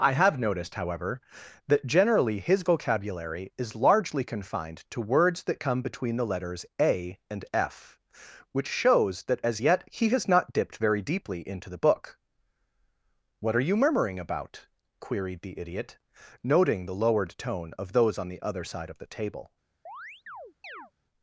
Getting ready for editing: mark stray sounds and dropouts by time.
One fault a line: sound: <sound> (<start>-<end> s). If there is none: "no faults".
sound: chirp (19.9-20.9 s)